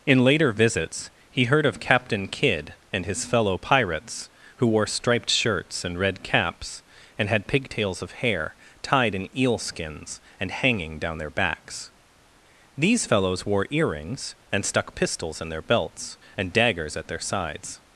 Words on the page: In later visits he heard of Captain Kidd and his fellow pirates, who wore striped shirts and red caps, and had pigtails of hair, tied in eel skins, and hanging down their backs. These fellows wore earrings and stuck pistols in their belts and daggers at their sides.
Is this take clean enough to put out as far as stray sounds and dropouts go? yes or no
yes